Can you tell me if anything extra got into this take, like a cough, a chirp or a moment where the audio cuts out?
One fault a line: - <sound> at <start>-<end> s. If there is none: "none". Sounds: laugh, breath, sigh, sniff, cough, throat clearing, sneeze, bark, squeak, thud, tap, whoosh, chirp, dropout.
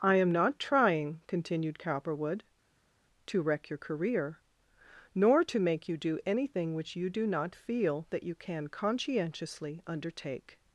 none